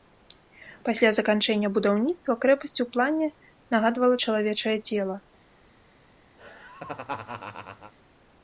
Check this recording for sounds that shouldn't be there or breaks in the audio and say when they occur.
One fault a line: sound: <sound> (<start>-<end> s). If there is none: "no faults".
sound: laugh (6.4-7.9 s)